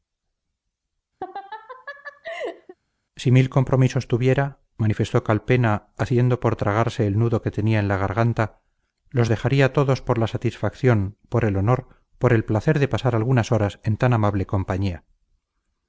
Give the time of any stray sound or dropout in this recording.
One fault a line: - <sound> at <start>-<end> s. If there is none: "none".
- laugh at 1.2-2.7 s